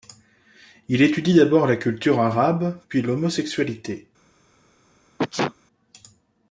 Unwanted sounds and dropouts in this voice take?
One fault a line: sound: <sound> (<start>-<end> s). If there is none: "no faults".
sound: sneeze (5.2-5.5 s)